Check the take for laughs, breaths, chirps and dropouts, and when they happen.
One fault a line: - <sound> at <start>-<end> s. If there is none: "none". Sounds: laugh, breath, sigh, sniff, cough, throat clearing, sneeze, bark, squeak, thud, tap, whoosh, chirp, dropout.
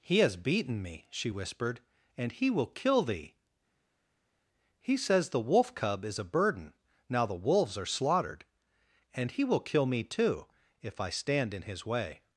none